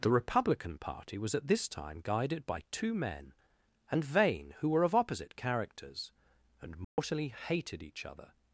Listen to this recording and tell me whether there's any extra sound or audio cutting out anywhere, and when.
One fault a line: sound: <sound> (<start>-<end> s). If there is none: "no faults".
sound: dropout (6.8-7.0 s)